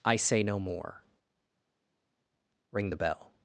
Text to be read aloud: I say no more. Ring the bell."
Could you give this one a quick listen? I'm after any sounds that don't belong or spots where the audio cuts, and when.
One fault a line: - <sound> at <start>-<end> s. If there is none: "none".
none